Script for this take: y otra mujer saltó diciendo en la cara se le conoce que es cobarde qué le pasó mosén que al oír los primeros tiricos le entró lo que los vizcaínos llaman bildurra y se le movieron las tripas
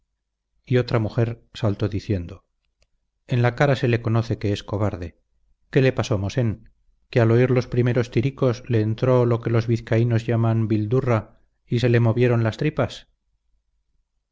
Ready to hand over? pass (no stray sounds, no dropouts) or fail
pass